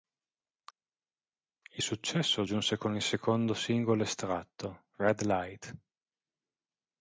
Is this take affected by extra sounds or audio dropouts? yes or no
no